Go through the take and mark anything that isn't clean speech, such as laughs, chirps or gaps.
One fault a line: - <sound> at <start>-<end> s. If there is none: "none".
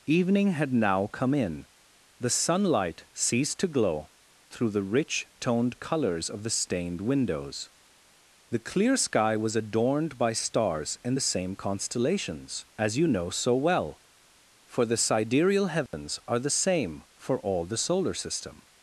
- dropout at 15.9-15.9 s